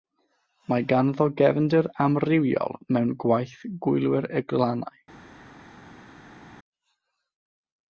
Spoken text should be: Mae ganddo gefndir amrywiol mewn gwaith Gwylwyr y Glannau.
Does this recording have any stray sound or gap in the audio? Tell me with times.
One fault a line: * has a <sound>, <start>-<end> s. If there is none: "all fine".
all fine